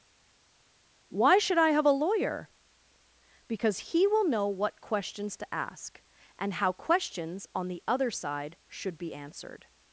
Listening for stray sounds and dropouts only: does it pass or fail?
pass